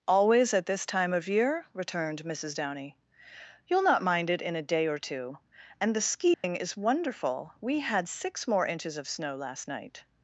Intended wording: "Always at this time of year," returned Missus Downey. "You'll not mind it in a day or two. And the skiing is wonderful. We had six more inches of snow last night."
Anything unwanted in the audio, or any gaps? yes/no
yes